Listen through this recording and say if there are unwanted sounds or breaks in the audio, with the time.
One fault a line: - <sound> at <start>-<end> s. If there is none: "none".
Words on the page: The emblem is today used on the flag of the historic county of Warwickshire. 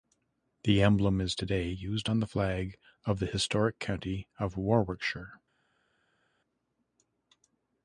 none